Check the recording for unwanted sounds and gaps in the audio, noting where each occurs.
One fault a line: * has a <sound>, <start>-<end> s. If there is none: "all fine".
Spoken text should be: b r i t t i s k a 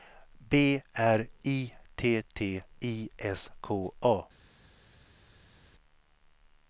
all fine